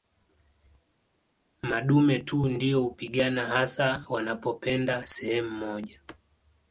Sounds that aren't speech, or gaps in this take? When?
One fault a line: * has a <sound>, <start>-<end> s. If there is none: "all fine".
all fine